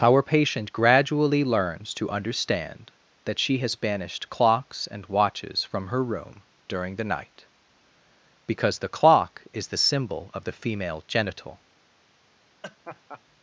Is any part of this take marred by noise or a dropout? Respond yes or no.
yes